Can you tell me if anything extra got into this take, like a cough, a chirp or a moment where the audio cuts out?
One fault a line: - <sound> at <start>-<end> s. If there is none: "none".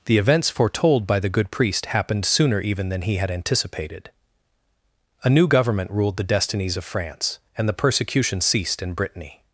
none